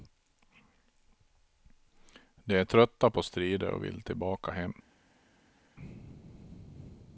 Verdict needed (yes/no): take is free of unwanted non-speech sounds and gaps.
yes